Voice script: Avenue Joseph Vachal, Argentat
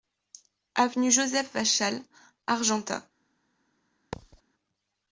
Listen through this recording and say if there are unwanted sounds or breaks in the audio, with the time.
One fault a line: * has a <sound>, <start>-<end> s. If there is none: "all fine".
* has a thud, 4.1-4.4 s